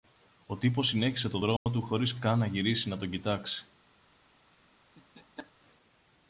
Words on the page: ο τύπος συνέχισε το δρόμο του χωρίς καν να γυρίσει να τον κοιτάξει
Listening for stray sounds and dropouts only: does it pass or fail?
fail